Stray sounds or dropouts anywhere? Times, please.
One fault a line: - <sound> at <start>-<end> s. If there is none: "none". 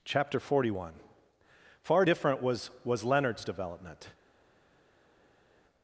none